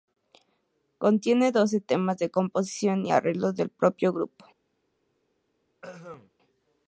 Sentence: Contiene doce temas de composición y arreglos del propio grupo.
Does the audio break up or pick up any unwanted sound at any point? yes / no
yes